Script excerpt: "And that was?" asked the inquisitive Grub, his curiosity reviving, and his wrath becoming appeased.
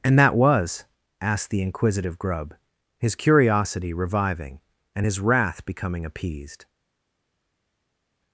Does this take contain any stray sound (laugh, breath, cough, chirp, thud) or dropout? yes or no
no